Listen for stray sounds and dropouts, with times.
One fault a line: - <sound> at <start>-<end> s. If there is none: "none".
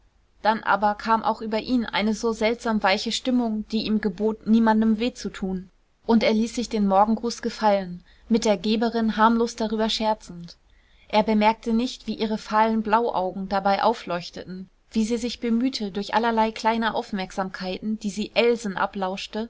none